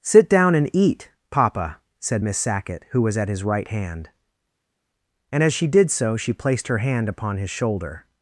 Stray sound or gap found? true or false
false